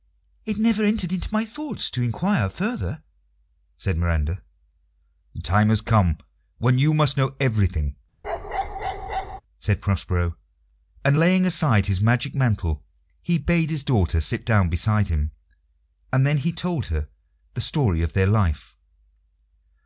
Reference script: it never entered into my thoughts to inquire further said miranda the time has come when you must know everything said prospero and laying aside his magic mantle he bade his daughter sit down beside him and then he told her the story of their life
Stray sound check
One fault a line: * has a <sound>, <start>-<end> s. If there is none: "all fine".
* has a bark, 8.2-9.4 s